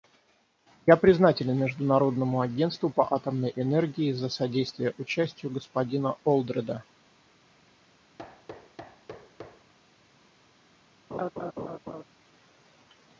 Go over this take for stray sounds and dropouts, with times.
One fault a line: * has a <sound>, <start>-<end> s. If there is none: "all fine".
* has a thud, 8.2-9.7 s
* has a laugh, 11.1-12.0 s